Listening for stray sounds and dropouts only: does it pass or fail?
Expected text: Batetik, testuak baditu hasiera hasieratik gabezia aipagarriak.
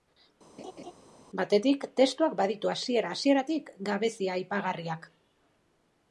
fail